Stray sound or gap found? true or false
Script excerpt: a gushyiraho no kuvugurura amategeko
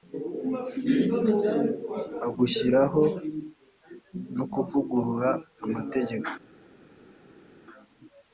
false